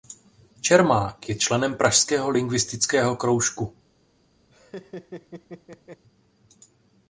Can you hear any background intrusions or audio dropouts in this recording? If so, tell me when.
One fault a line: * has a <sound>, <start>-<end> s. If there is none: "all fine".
* has a laugh, 4.5-6.0 s